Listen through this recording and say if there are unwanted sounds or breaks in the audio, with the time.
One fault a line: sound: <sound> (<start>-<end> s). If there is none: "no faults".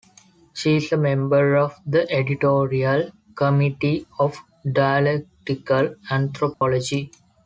sound: dropout (6.5-6.6 s)